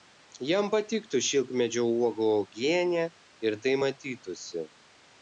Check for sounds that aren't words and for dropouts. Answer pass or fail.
pass